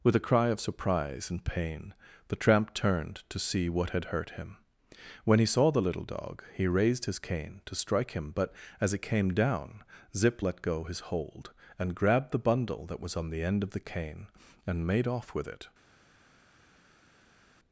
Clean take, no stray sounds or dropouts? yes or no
yes